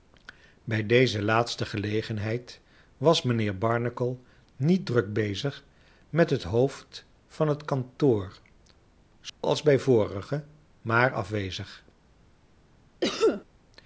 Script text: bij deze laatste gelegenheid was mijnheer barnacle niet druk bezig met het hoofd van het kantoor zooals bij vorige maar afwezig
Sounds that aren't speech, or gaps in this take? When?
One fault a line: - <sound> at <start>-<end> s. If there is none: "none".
- dropout at 9.3-9.4 s
- cough at 13.0-13.4 s